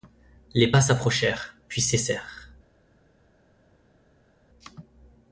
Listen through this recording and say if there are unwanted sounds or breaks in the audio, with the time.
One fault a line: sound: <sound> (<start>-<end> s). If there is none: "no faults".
no faults